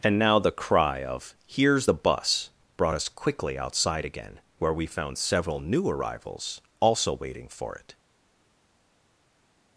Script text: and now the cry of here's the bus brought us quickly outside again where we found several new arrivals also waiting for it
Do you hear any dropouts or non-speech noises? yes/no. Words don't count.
no